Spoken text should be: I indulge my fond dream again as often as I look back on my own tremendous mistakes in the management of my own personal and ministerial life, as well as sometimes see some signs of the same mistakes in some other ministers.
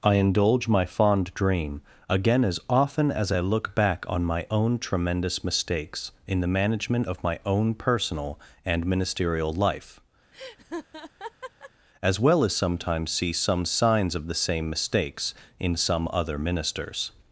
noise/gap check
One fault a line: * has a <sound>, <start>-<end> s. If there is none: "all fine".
* has a laugh, 10.3-11.7 s